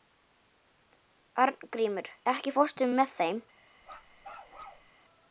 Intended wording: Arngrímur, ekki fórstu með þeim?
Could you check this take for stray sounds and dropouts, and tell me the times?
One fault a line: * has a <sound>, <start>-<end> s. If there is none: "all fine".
* has a bark, 3.8-4.9 s